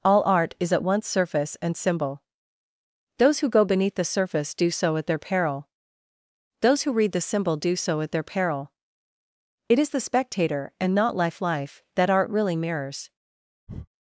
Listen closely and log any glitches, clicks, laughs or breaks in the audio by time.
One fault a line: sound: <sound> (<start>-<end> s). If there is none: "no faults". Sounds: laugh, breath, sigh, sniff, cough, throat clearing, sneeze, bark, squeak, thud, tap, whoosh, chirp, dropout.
sound: breath (13.7-13.9 s)